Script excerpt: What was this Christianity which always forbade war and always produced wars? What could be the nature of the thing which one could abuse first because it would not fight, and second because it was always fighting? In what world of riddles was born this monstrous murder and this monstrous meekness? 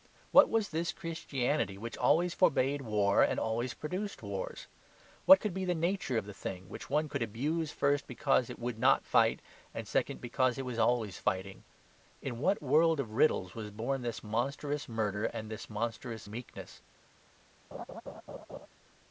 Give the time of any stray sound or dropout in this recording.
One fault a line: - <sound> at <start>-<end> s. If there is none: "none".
- laugh at 17.7-18.7 s